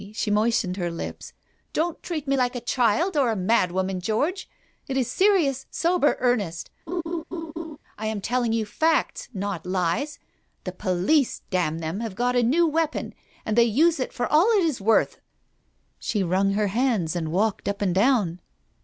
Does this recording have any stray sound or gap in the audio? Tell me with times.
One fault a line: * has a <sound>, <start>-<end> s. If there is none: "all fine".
* has a laugh, 6.9-7.8 s